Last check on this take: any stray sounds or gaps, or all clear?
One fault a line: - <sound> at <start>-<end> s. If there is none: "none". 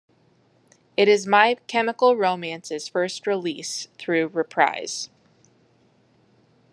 none